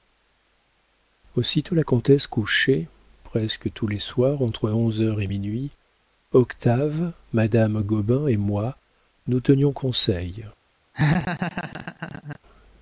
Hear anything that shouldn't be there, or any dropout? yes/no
yes